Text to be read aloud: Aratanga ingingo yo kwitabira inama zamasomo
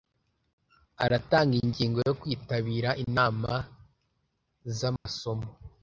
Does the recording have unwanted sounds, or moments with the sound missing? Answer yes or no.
yes